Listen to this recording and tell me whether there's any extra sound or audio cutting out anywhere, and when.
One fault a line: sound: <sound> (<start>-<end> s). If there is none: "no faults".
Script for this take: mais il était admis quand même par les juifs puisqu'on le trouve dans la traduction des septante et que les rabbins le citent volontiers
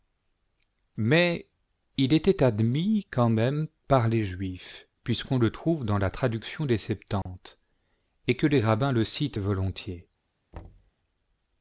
sound: dropout (7.2-7.3 s)
sound: thud (10.5-10.9 s)